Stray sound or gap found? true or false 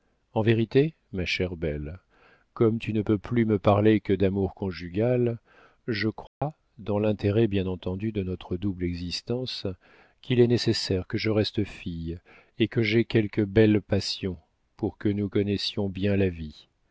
true